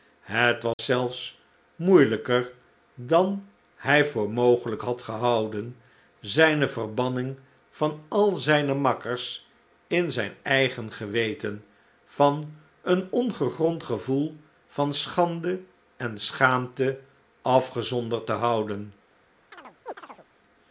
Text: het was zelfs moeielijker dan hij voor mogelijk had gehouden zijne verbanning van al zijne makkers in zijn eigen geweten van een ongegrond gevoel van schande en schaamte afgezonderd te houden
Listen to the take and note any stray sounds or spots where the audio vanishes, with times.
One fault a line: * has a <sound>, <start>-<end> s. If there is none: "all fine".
* has a dropout, 0.7-0.8 s
* has a chirp, 19.5-20.3 s